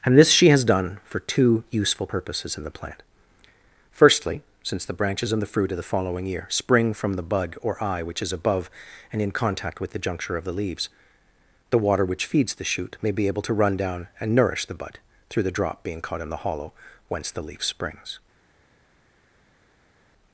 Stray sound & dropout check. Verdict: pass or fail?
pass